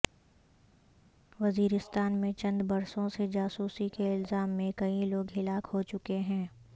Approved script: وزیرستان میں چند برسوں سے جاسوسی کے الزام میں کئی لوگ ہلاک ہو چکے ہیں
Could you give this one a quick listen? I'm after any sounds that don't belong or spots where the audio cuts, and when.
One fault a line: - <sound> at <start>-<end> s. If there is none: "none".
none